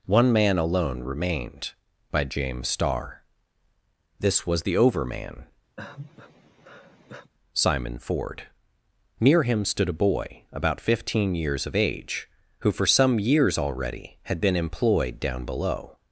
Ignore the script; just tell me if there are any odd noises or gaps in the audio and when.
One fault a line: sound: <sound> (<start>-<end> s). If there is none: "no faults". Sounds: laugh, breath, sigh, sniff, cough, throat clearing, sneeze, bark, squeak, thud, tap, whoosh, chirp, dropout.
sound: sigh (5.8-7.3 s)